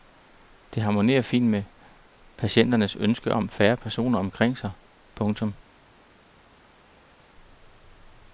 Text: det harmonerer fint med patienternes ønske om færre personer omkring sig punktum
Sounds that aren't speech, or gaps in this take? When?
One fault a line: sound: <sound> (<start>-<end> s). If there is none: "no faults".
no faults